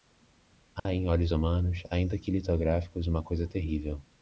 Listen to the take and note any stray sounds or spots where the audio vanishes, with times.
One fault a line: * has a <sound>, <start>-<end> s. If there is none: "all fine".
* has a dropout, 0.8-0.9 s